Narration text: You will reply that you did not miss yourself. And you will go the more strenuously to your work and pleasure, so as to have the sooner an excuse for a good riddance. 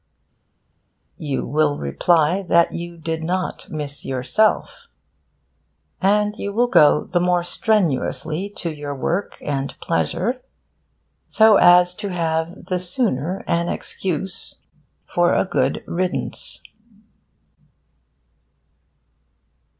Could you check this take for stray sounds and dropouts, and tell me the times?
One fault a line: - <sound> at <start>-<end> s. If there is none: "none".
none